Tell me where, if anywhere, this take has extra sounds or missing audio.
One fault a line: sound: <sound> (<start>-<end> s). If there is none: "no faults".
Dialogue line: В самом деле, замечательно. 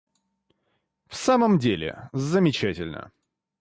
no faults